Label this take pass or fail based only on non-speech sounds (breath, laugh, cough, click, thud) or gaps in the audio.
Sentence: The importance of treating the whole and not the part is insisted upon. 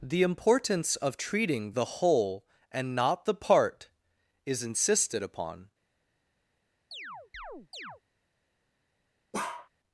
fail